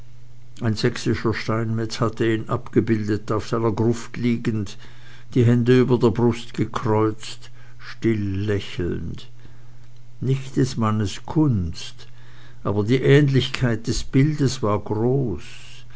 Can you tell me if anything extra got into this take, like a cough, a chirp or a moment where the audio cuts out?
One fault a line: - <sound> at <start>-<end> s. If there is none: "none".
none